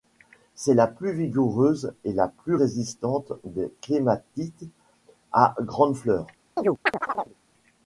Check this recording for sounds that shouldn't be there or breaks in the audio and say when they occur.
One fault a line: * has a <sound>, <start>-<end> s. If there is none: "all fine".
* has a chirp, 6.6-7.3 s